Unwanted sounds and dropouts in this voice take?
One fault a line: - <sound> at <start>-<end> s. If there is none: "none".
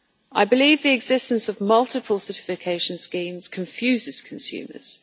none